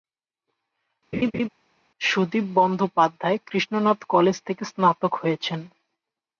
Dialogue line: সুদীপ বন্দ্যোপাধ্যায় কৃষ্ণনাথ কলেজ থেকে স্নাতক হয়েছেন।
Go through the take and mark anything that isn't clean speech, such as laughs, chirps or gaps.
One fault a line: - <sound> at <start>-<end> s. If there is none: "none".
- laugh at 1.1-1.5 s